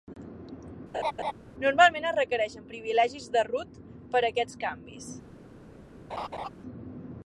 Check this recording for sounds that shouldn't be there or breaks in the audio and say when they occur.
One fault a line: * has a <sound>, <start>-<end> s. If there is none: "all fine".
* has a laugh, 0.9-1.3 s
* has a laugh, 6.1-6.5 s